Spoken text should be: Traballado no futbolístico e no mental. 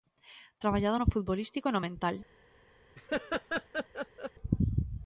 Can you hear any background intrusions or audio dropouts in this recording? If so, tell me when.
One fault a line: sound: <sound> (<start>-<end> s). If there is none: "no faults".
sound: laugh (2.9-4.3 s)